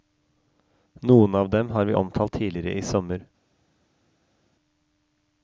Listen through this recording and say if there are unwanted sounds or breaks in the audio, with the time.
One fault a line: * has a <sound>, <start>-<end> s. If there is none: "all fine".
all fine